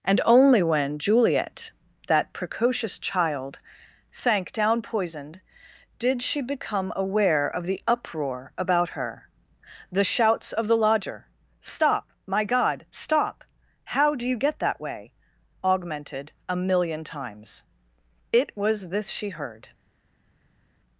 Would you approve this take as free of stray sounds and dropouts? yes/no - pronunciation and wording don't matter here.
yes